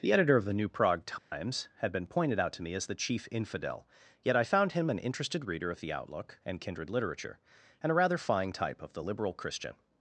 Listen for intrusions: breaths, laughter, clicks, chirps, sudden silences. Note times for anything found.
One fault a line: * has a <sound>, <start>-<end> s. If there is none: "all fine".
* has a dropout, 1.2-1.3 s